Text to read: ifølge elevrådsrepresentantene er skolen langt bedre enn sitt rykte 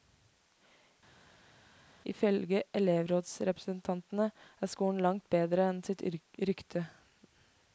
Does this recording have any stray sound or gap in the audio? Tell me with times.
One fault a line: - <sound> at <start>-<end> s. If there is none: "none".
none